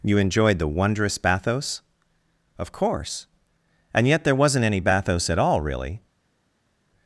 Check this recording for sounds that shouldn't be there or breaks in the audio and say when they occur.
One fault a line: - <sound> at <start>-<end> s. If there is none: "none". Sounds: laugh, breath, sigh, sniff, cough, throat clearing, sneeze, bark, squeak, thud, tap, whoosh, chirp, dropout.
none